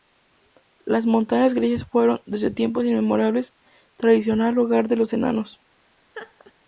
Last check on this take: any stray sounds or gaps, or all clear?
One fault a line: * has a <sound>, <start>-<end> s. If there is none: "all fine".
* has a laugh, 6.1-6.5 s